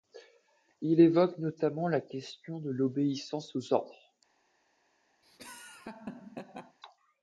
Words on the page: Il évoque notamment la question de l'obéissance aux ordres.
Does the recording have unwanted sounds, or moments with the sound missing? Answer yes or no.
yes